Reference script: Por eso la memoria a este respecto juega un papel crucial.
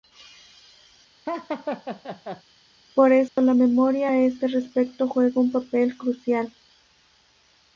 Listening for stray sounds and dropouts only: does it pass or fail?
fail